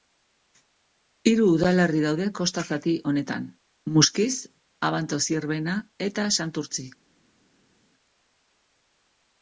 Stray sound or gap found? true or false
false